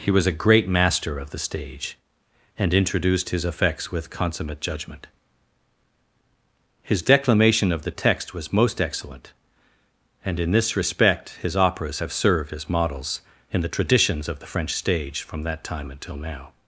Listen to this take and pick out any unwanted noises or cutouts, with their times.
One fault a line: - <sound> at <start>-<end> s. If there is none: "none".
none